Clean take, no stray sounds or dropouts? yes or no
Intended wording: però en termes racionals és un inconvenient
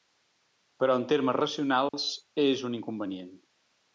no